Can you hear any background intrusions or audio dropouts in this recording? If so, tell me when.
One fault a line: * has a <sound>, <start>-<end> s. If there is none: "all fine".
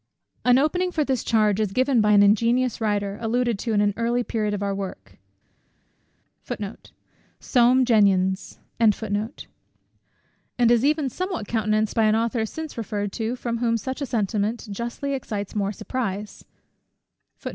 all fine